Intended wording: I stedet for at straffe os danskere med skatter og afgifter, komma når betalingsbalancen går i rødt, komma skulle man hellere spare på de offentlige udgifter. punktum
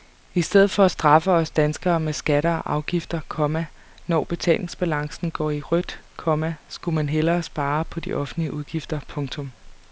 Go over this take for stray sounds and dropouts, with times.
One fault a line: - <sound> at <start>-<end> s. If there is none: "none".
none